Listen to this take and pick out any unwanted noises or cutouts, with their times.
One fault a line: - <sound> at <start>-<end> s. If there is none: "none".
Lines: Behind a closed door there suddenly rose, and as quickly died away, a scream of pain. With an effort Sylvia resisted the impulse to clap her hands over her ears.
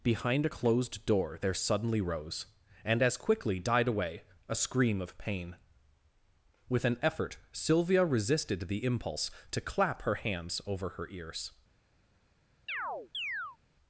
- chirp at 12.7-13.6 s